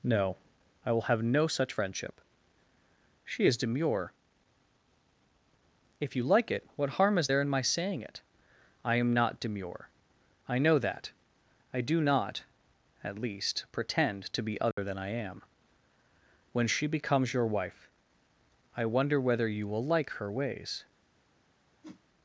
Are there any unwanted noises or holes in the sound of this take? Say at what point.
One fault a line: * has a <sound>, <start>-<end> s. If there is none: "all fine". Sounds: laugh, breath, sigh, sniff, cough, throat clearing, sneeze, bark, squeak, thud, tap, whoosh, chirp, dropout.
* has a dropout, 14.7-14.8 s
* has a whoosh, 21.8-22.0 s